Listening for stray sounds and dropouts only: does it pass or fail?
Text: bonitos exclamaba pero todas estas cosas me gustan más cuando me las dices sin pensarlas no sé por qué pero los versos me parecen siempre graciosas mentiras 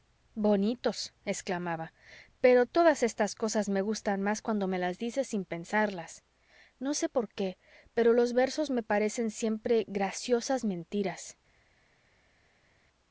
pass